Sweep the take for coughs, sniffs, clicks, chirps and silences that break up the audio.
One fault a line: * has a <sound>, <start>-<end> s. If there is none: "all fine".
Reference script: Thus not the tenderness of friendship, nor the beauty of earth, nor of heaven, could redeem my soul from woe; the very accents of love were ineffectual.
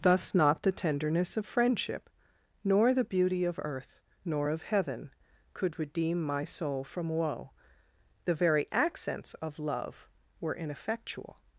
all fine